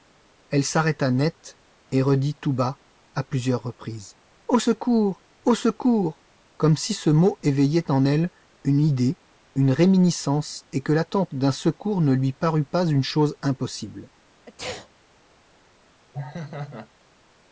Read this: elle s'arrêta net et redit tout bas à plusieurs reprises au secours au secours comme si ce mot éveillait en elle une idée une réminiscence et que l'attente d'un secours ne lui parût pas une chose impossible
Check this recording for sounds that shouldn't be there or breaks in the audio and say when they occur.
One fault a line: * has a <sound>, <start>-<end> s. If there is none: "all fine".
* has a sneeze, 14.5-14.9 s
* has a laugh, 16.1-16.9 s